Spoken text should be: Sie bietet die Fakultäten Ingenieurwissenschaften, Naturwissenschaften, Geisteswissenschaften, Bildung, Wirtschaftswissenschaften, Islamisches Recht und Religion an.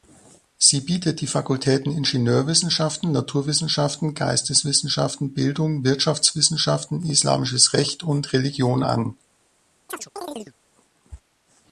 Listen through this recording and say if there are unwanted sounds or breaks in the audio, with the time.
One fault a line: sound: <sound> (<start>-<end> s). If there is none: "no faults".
sound: chirp (9.9-10.5 s)